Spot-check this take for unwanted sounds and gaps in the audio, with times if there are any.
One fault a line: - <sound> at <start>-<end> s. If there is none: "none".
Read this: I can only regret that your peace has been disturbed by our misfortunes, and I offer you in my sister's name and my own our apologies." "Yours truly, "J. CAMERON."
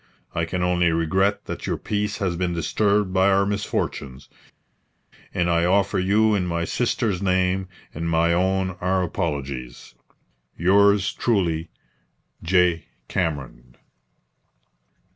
none